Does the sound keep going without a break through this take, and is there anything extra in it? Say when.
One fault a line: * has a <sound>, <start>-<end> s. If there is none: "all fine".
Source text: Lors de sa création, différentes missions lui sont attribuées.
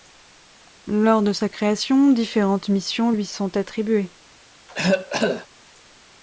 * has a cough, 4.7-5.5 s